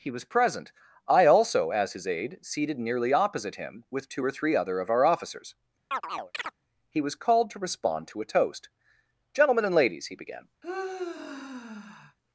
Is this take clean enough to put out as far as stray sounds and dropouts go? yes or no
no